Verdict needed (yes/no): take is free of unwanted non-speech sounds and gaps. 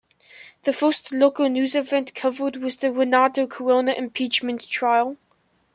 yes